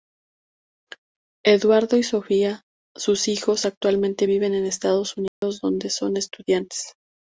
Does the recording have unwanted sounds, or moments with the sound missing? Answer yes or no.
yes